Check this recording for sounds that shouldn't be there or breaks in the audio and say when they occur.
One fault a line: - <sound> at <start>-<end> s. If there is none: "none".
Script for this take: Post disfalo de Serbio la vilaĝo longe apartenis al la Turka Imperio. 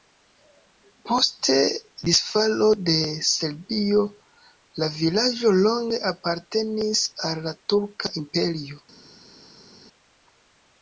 none